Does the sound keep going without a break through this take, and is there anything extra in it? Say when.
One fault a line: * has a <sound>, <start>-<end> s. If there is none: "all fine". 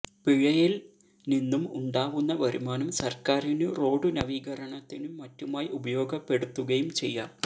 all fine